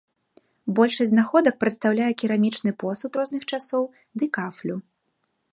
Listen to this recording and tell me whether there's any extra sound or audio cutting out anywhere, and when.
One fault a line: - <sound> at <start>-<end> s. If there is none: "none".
none